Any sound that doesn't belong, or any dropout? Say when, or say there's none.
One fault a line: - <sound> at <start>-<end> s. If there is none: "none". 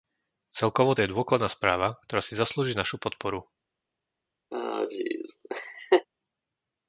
- laugh at 4.5-6.1 s